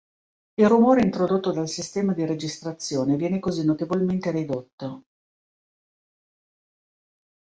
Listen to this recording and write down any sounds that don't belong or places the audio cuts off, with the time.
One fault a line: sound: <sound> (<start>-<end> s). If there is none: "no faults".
no faults